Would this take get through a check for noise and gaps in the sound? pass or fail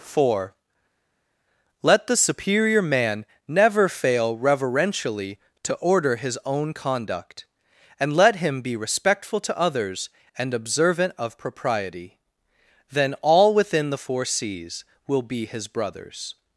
pass